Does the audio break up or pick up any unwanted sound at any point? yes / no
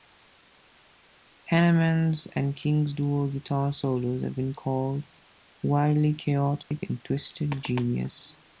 yes